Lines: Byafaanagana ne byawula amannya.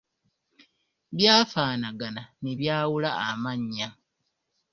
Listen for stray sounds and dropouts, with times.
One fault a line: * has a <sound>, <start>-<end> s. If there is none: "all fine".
all fine